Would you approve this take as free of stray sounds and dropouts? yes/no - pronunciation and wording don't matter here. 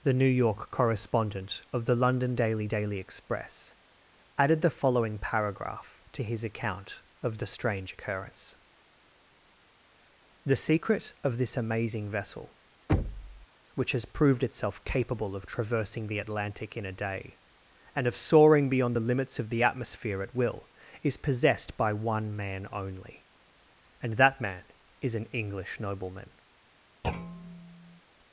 no